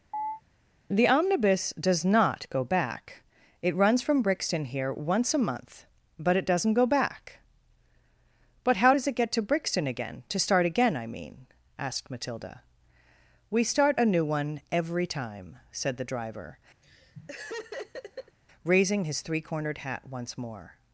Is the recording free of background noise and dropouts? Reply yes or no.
no